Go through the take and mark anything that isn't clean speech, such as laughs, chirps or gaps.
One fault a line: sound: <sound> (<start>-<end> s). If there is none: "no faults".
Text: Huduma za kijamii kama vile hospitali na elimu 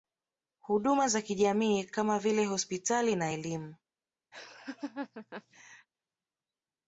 sound: laugh (4.3-5.9 s)